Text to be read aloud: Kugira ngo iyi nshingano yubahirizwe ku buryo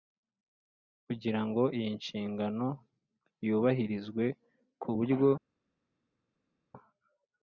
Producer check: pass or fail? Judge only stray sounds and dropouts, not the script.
pass